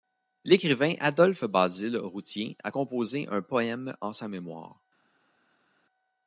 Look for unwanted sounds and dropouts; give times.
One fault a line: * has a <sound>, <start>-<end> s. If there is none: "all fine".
all fine